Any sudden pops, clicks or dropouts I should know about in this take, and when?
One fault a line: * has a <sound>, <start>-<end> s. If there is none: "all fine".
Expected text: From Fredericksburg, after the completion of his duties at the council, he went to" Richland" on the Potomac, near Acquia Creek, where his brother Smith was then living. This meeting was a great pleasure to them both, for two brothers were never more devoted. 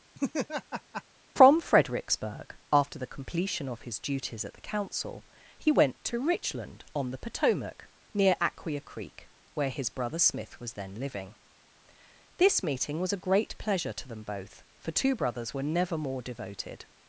* has a laugh, 0.1-1.0 s